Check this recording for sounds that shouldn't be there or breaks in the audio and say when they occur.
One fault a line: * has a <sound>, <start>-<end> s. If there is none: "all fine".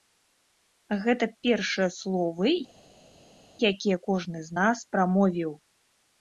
all fine